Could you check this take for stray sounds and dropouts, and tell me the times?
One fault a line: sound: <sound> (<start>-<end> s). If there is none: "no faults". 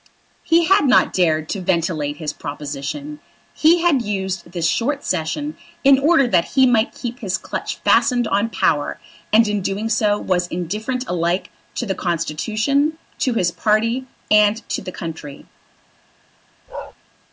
sound: bark (16.7-16.9 s)